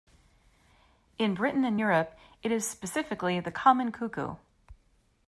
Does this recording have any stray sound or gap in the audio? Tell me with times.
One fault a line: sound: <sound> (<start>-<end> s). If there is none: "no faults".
no faults